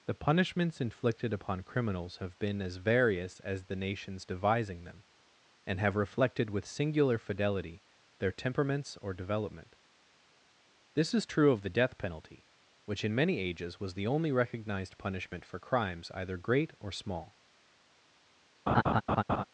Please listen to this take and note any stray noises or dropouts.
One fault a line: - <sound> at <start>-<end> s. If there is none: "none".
- laugh at 18.7-19.4 s